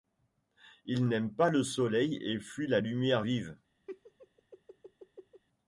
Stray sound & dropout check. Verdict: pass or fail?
fail